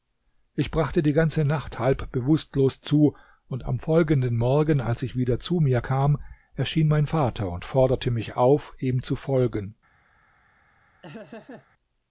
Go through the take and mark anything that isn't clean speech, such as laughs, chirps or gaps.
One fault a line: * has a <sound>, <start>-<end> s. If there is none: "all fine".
* has a laugh, 11.0-11.7 s